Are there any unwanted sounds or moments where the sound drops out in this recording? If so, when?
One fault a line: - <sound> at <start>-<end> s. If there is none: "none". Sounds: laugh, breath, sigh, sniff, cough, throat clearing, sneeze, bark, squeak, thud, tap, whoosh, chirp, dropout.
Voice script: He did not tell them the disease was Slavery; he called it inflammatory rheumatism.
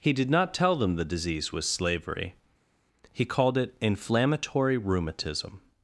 none